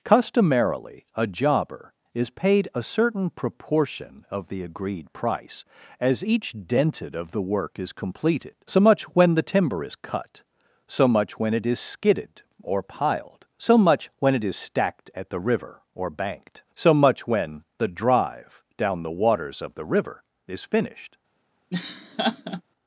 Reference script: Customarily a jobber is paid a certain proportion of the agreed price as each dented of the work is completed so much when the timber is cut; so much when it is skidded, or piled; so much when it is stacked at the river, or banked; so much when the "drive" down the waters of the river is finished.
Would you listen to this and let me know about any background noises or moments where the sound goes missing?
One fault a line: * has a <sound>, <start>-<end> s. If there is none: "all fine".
* has a laugh, 21.7-22.6 s